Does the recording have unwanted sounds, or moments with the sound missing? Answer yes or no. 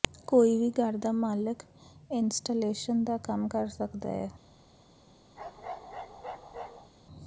yes